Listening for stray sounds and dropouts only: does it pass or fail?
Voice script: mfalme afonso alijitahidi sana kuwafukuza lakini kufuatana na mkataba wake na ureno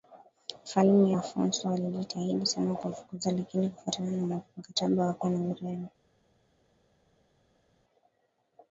pass